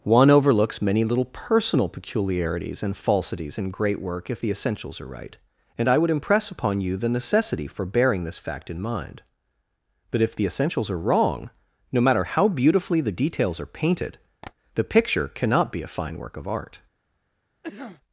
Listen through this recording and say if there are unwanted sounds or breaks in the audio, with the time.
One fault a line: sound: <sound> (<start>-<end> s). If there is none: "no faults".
sound: tap (14.4-14.5 s)
sound: cough (17.6-18.0 s)